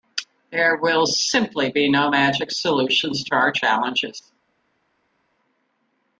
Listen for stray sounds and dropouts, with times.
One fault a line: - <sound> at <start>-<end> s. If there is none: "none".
none